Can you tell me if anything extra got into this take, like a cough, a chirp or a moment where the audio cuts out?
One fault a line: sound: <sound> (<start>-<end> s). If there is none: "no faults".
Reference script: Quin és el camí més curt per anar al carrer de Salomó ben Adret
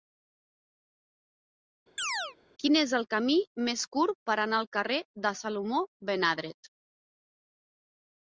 sound: chirp (2.0-2.4 s)